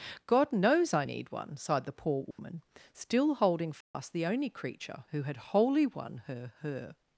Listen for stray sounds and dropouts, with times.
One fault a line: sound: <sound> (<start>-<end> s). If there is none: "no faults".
sound: dropout (2.3-2.4 s)
sound: dropout (3.8-3.9 s)